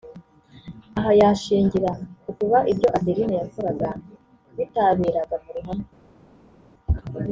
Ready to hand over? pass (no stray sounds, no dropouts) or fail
pass